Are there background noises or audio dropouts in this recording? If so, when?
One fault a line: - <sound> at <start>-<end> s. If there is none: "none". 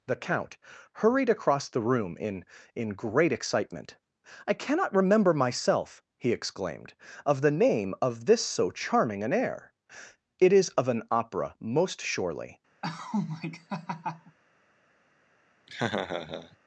- laugh at 12.8-14.4 s
- laugh at 15.7-16.6 s